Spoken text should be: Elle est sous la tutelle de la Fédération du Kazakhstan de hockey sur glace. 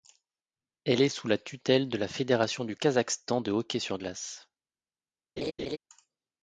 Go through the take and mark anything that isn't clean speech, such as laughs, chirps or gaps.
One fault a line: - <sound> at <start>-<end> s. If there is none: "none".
- laugh at 5.4-5.8 s